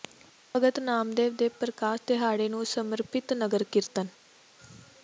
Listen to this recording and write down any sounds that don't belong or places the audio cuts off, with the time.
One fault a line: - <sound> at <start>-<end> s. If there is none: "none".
none